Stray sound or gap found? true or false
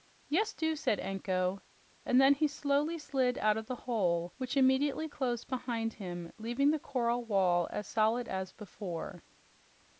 false